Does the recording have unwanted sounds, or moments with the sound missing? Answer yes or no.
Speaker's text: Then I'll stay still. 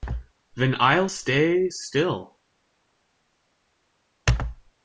no